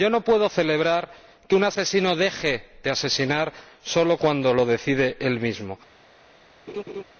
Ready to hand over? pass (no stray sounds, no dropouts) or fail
fail